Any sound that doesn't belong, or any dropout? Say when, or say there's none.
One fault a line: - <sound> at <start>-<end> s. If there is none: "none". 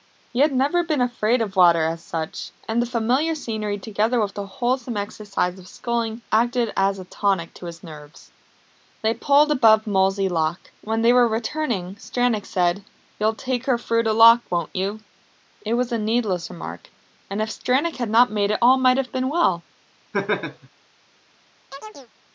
- laugh at 20.1-20.7 s
- chirp at 21.7-22.1 s